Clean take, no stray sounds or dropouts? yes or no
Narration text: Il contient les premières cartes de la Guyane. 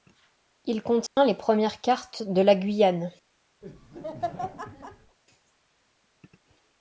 no